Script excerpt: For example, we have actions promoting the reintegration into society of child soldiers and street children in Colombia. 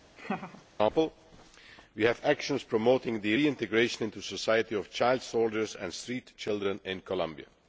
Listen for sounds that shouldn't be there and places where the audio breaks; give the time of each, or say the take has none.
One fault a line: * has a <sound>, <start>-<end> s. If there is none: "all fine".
* has a laugh, 0.2-0.7 s